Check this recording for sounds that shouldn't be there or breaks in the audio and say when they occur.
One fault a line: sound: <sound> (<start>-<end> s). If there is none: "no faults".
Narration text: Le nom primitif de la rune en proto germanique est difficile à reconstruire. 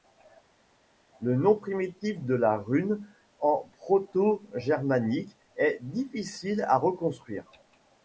no faults